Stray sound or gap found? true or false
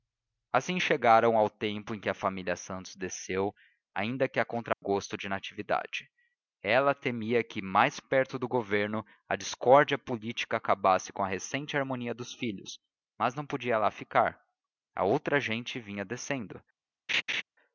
true